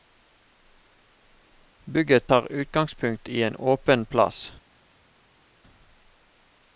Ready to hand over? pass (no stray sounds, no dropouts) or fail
pass